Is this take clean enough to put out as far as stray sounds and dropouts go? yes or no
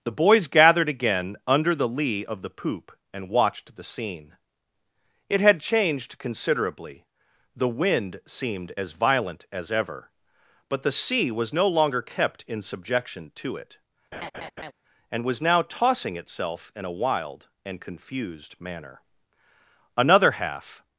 no